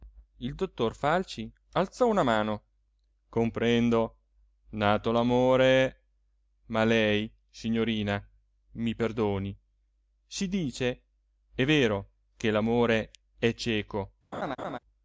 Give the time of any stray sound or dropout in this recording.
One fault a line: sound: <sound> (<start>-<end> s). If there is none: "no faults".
sound: laugh (14.3-14.8 s)